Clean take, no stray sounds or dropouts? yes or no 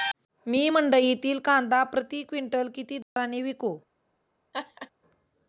no